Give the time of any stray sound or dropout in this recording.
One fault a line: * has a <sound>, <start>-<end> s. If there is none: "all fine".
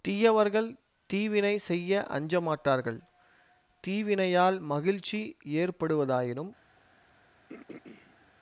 * has a throat clearing, 7.5-8.3 s